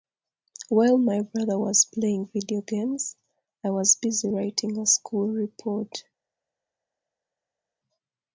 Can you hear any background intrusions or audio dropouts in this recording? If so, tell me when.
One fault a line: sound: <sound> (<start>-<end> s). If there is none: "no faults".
no faults